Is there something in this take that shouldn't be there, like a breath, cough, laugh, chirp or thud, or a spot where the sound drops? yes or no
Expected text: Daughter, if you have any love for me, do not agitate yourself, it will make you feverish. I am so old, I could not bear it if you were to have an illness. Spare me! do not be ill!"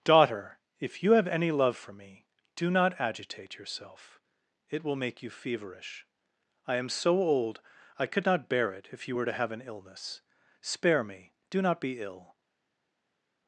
no